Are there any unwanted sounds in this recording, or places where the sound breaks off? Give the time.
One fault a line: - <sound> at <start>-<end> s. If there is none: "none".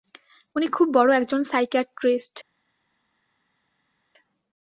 none